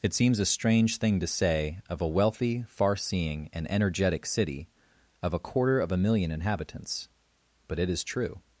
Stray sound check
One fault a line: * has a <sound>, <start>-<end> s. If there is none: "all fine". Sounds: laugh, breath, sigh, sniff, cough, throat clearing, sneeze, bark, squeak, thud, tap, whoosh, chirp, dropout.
all fine